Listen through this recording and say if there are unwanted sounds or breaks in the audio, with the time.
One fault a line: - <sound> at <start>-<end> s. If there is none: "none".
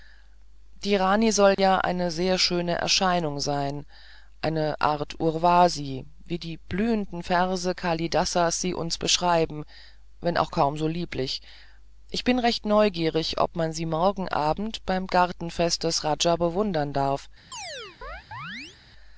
- dropout at 1.5-1.6 s
- chirp at 17.5-18.8 s